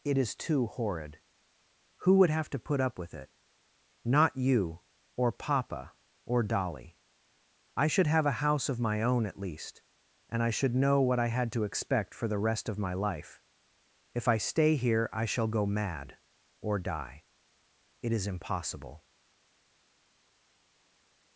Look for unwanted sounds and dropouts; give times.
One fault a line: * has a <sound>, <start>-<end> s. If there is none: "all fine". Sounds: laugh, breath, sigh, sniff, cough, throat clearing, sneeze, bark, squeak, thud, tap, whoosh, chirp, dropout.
all fine